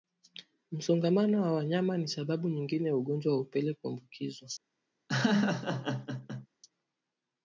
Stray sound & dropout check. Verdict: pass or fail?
fail